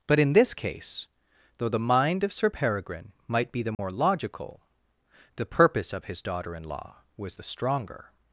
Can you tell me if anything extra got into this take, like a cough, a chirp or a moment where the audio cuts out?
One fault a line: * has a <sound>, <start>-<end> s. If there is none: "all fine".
* has a dropout, 3.7-3.8 s